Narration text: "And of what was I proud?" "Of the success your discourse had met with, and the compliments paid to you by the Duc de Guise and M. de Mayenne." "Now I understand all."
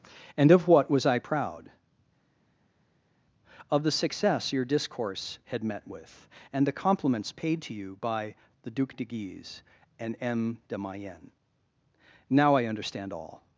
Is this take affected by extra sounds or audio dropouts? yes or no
no